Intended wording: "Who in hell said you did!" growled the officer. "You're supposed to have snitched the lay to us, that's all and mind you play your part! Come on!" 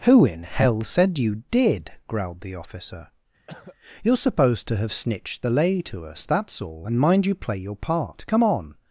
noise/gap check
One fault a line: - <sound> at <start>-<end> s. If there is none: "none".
- cough at 3.5-3.8 s